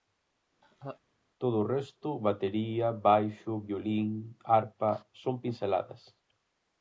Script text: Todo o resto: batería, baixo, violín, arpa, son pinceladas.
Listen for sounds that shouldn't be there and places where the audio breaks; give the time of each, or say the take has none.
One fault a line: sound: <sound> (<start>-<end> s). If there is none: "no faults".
sound: laugh (0.6-1.0 s)